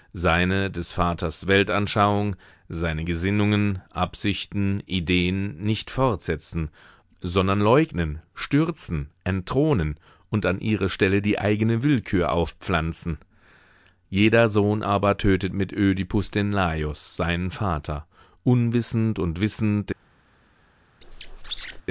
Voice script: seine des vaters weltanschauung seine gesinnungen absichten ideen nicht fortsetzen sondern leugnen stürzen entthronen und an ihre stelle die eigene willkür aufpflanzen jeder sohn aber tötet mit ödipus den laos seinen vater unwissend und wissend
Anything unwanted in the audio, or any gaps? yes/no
yes